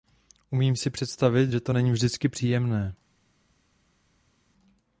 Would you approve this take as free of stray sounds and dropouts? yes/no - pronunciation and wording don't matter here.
yes